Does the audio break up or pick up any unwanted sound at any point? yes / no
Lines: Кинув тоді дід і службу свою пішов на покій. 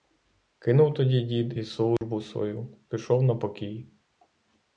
yes